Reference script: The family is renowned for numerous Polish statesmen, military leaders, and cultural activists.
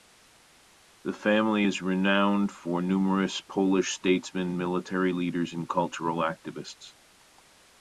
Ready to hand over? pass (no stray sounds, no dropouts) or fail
pass